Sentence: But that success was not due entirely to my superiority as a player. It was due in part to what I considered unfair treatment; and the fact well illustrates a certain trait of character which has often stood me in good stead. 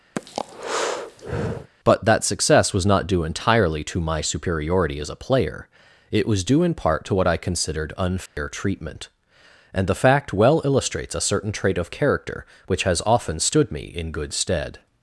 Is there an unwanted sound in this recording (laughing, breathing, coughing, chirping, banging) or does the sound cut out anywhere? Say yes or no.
yes